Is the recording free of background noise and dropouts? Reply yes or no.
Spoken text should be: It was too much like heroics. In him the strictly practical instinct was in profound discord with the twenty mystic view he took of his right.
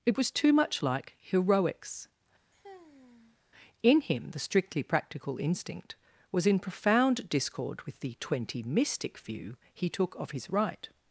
no